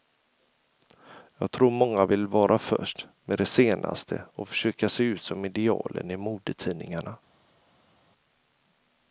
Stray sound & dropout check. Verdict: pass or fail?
pass